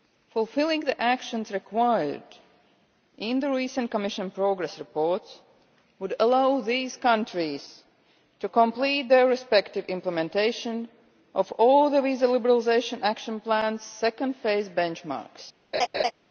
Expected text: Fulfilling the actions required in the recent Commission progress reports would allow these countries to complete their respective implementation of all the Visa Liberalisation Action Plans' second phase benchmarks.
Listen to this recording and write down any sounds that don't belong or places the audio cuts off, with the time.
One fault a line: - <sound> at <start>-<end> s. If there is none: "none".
- laugh at 15.7-16.1 s